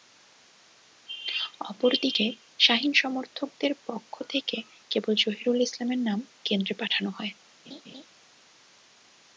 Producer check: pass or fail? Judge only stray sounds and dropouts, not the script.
fail